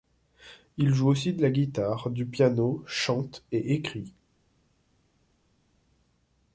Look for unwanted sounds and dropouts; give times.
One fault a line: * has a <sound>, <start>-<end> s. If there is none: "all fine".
all fine